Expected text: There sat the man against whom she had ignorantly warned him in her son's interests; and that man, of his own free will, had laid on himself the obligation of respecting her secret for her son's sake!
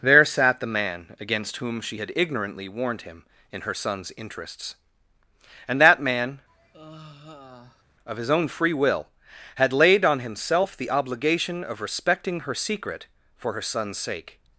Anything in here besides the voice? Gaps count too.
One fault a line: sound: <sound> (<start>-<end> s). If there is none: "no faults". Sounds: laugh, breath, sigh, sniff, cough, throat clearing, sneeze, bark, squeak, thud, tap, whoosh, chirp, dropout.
sound: sigh (6.5-7.8 s)